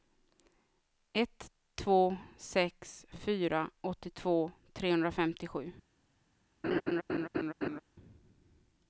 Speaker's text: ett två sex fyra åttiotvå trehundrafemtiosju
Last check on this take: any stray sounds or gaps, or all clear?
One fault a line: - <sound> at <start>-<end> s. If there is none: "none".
- laugh at 6.6-7.8 s